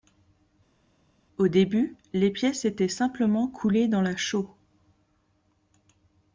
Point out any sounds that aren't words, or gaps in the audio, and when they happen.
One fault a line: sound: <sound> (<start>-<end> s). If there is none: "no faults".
no faults